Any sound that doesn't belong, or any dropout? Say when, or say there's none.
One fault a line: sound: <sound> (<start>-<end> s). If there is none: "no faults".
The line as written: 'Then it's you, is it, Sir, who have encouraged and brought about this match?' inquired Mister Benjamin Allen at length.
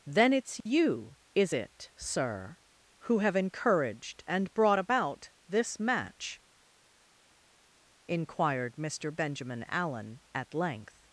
no faults